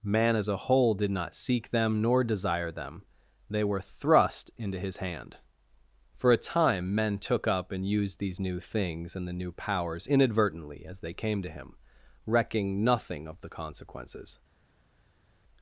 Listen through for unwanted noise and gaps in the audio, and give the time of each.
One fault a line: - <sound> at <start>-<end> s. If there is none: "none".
none